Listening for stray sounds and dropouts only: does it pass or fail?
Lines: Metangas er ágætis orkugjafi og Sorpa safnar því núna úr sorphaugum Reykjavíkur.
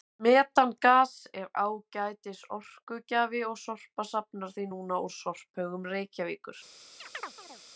fail